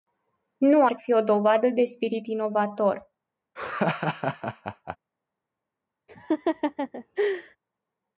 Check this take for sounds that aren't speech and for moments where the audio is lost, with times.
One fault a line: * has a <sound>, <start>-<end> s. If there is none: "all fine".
* has a laugh, 3.6-5.0 s
* has a laugh, 6.1-7.6 s